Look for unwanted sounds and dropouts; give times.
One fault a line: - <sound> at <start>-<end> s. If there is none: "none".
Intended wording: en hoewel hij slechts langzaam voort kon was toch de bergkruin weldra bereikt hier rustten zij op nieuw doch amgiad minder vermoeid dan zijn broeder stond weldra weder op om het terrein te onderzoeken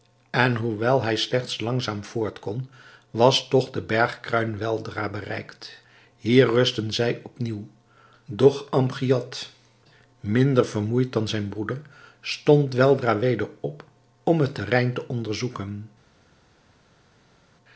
none